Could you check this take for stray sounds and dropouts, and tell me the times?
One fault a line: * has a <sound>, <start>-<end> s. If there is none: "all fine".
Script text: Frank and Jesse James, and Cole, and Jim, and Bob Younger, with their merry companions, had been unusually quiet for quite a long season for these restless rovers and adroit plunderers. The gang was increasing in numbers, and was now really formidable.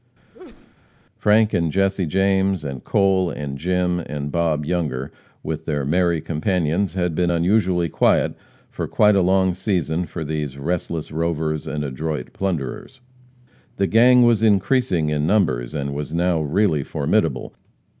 * has a sneeze, 0.3-0.7 s